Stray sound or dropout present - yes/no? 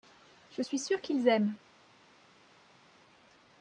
no